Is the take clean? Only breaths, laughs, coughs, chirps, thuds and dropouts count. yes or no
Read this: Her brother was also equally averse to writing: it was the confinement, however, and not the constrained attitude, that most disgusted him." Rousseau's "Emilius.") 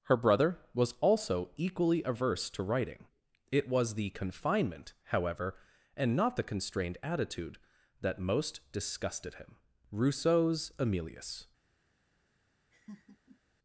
no